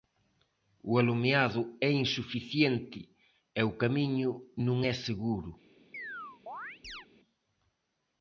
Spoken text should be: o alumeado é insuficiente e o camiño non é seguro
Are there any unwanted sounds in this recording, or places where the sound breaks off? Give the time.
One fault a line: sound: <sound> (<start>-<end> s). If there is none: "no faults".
sound: chirp (5.9-7.1 s)